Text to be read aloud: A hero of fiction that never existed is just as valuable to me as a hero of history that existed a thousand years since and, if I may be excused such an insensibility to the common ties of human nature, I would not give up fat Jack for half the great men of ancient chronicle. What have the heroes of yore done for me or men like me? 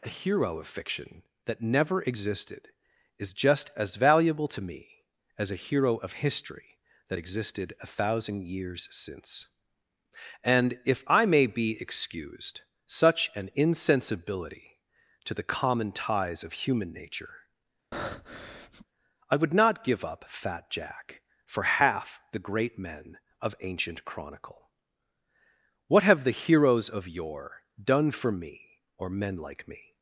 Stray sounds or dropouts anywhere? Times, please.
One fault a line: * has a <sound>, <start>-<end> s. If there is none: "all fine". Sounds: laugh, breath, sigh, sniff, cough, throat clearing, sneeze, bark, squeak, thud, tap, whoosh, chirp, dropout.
* has a breath, 17.9-18.9 s